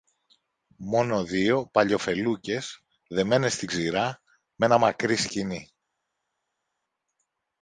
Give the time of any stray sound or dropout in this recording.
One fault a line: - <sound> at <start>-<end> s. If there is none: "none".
none